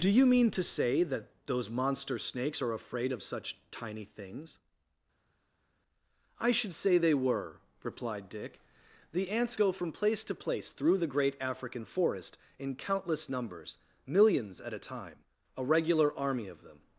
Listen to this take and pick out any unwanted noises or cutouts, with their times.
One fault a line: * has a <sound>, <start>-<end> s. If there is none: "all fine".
all fine